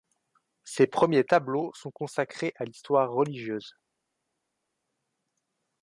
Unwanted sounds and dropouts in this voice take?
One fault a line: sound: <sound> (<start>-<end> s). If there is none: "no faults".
no faults